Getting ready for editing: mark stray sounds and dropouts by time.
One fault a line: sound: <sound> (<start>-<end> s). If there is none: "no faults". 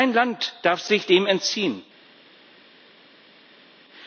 no faults